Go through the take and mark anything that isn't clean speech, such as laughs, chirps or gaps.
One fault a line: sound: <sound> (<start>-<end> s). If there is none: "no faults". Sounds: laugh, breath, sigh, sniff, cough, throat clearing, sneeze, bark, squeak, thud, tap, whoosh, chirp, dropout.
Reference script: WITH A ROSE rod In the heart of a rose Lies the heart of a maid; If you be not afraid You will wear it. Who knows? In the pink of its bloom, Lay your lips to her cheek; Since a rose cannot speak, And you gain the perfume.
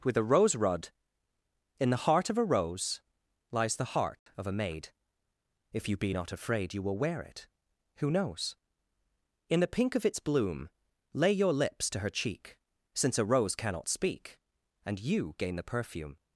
sound: dropout (4.2-4.3 s)